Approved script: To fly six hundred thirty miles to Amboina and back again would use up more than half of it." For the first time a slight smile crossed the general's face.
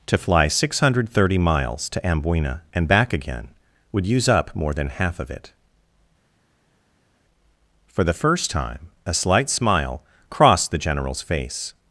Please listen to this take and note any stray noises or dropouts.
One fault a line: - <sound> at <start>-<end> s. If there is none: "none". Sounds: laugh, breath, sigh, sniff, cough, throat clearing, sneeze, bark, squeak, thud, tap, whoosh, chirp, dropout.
none